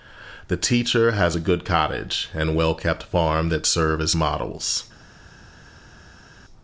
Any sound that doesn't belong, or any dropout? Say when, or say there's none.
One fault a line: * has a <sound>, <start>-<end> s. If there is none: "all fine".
all fine